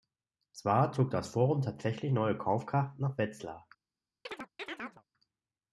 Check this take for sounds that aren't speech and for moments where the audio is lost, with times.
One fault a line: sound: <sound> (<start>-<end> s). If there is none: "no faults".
sound: chirp (4.3-5.0 s)